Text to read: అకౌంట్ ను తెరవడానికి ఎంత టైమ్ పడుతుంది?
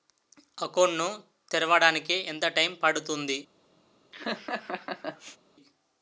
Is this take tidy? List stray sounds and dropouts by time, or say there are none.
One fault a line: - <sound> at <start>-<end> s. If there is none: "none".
- laugh at 4.1-5.4 s